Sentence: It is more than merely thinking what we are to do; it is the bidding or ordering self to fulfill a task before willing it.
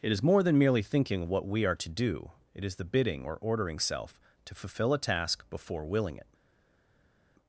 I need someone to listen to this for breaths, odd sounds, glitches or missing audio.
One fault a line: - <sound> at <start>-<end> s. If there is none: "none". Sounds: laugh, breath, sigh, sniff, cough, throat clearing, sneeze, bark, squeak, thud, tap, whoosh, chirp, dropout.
none